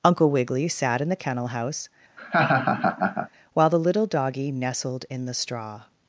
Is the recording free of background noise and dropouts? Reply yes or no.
no